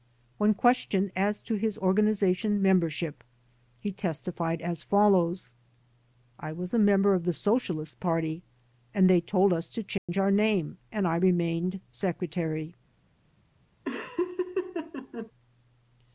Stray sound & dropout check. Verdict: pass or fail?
fail